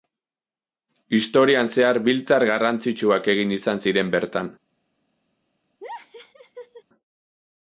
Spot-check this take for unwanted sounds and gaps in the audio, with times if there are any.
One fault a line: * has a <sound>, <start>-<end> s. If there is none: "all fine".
* has a laugh, 5.8-6.8 s